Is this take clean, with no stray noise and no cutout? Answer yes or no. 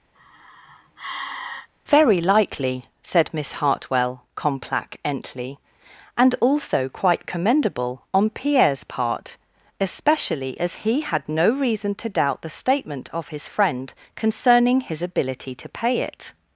no